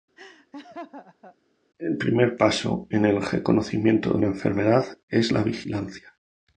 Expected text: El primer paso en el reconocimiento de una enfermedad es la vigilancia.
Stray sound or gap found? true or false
true